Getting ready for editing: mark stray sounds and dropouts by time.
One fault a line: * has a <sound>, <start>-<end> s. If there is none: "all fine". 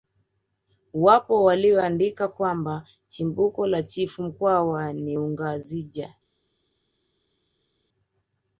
all fine